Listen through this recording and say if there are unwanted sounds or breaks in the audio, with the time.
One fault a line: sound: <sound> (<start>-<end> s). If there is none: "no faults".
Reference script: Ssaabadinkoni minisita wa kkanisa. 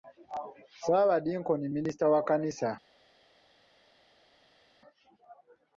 no faults